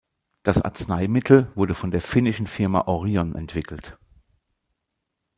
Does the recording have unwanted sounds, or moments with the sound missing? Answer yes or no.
no